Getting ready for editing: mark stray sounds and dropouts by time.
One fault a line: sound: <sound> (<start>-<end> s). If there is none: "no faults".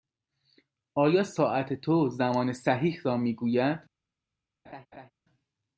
sound: laugh (4.6-5.1 s)